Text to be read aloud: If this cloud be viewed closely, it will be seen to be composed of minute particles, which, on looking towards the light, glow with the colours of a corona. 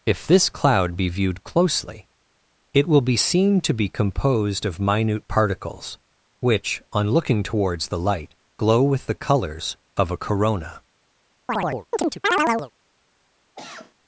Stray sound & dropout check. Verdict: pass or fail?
fail